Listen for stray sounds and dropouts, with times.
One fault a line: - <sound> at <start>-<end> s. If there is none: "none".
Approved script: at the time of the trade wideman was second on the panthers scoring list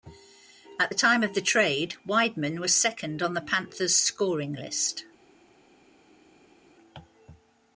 none